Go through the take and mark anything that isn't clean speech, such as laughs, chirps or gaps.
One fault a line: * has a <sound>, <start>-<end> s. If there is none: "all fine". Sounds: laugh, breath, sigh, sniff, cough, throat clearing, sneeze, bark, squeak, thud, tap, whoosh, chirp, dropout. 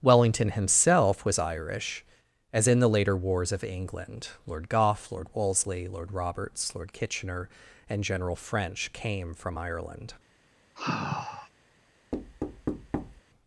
* has a sigh, 10.7-11.5 s
* has a thud, 12.1-13.2 s